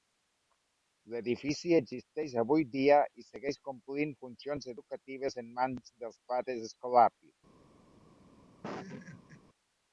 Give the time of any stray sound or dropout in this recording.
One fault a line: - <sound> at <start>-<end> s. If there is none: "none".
- laugh at 8.6-9.4 s